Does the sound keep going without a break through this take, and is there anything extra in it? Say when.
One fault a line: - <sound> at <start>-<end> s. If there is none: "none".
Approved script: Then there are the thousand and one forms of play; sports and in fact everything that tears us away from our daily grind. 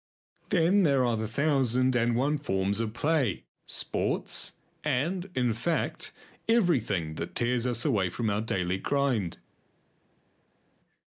none